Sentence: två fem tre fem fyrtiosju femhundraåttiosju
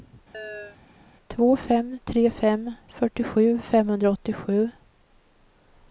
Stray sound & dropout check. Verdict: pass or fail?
fail